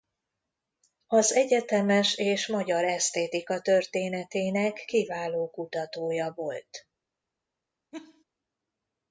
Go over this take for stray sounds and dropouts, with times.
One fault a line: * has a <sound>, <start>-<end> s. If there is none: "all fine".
* has a laugh, 7.9-8.2 s